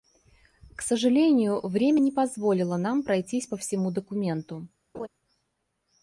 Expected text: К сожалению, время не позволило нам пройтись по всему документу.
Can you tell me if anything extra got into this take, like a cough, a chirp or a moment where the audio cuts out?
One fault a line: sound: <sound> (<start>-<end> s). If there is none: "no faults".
sound: laugh (4.9-5.1 s)